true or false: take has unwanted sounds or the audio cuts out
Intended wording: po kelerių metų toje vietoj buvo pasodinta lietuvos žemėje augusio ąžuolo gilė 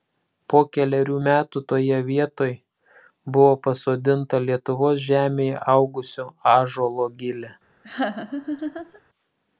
true